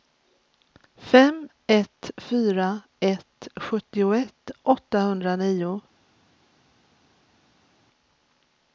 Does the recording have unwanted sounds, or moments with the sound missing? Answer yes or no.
no